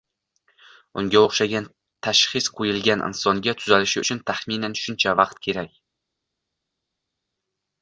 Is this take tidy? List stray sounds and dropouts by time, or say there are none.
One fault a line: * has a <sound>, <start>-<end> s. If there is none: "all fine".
all fine